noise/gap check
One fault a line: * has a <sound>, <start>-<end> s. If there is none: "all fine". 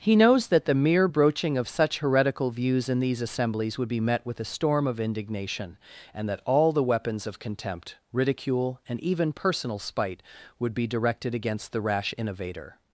all fine